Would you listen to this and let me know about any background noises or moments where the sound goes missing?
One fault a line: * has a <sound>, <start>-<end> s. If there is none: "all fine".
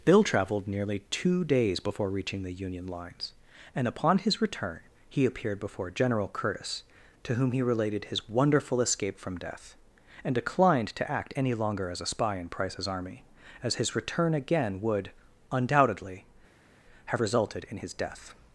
all fine